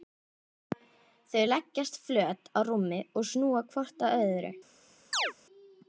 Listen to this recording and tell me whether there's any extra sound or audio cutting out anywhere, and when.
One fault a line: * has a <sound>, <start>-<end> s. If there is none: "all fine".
* has a chirp, 5.1-5.3 s